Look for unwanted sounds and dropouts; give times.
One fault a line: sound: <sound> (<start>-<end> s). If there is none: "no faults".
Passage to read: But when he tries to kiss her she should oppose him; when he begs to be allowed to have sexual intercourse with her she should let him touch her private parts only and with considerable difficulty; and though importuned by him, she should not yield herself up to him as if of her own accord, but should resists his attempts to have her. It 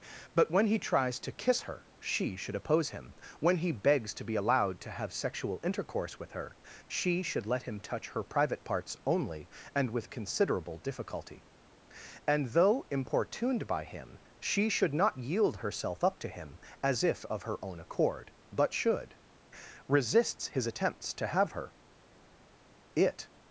no faults